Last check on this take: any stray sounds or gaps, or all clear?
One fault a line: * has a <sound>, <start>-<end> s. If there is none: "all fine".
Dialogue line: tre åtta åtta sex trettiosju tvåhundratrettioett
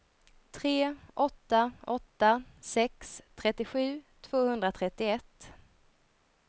all fine